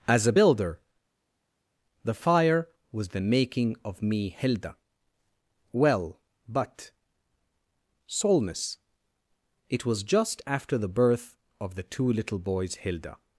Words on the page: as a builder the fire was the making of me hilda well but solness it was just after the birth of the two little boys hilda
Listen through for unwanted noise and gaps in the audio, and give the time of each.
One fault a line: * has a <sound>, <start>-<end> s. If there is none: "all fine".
all fine